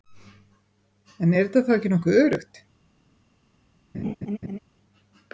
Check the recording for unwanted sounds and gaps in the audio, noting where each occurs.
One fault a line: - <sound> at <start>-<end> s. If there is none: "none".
- laugh at 3.9-4.6 s